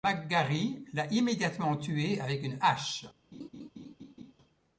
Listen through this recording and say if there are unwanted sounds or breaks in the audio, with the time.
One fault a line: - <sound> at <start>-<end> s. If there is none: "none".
- laugh at 3.3-4.3 s